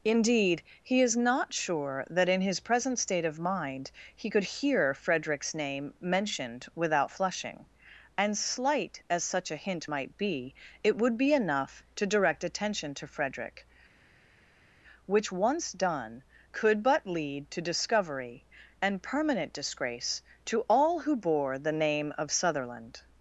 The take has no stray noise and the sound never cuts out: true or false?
true